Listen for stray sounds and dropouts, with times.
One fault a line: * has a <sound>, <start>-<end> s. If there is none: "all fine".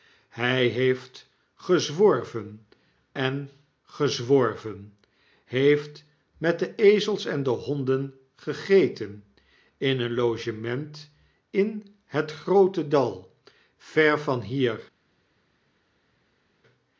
all fine